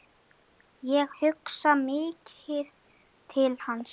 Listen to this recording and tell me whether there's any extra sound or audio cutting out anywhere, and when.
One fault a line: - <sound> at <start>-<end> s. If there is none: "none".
none